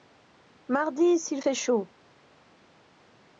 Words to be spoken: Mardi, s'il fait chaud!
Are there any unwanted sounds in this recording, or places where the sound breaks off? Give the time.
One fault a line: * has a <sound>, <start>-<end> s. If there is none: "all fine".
all fine